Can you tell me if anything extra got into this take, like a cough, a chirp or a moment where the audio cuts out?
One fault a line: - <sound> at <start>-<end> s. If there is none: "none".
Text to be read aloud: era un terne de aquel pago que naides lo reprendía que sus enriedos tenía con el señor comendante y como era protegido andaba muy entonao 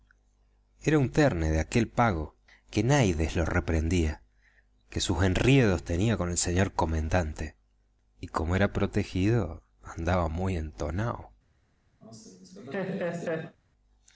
- laugh at 12.0-13.6 s